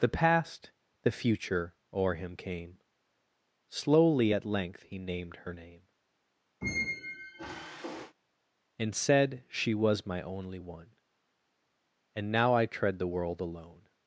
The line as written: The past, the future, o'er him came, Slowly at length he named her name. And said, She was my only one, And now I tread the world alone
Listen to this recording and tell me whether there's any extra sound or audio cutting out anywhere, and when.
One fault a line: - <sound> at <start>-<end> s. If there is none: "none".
- squeak at 6.6-8.1 s